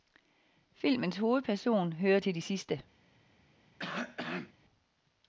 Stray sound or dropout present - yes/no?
yes